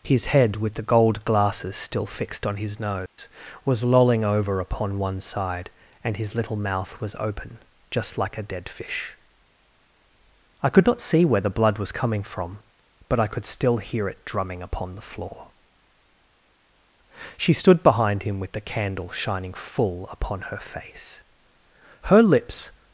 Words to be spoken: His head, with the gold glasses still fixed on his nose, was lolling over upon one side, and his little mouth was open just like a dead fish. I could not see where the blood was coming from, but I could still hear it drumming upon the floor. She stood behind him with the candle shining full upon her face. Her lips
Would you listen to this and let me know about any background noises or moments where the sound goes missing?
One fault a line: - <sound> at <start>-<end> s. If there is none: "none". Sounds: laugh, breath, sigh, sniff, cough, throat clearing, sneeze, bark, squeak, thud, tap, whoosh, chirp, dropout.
- dropout at 3.1-3.2 s